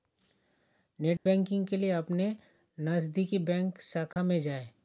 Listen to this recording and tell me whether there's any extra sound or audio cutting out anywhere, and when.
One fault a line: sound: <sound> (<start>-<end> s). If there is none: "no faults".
sound: dropout (1.2-1.3 s)
sound: dropout (4.1-4.2 s)